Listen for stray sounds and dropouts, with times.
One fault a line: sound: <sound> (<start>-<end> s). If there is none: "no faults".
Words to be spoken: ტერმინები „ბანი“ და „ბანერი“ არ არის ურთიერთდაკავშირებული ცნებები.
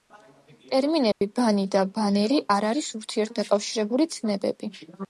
sound: dropout (1.1-1.2 s)